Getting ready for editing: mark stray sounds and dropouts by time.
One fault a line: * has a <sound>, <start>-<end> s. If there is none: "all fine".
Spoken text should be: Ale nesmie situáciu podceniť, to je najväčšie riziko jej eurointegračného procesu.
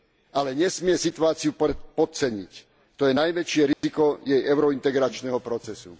* has a dropout, 3.7-3.8 s